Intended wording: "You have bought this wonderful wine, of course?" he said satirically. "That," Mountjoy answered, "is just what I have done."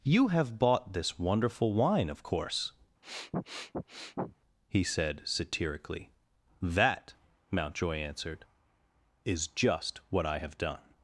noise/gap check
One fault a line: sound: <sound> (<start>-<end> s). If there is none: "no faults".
sound: sniff (3.0-4.4 s)